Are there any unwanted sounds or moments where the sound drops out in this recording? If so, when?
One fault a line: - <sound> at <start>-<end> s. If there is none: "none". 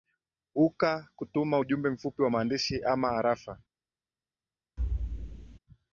- thud at 4.8-5.6 s